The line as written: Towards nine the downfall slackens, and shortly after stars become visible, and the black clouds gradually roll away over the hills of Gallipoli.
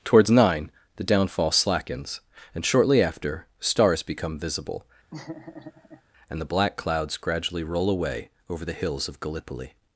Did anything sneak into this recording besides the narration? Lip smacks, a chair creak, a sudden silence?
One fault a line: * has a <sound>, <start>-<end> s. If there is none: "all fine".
* has a laugh, 5.1-6.0 s